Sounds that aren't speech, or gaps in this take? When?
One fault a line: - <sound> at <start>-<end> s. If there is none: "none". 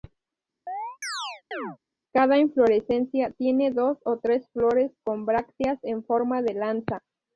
- chirp at 0.7-1.8 s